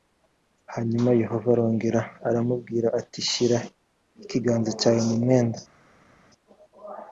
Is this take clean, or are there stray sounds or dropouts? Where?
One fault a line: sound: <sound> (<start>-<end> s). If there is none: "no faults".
no faults